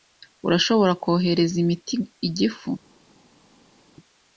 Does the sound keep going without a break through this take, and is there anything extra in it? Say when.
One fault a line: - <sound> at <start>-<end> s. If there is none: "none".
none